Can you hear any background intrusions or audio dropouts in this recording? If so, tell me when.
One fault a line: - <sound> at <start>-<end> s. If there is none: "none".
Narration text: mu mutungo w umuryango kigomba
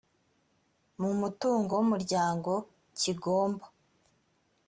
none